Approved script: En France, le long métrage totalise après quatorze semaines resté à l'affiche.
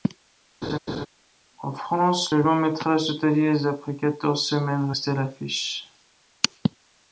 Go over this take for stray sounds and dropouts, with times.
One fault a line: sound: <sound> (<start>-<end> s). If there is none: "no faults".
sound: laugh (0.6-1.1 s)